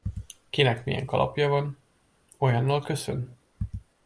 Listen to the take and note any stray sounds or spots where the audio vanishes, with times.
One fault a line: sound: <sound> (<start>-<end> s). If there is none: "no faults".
no faults